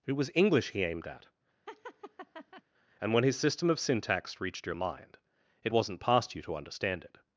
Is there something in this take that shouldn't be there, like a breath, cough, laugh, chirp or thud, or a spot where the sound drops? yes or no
yes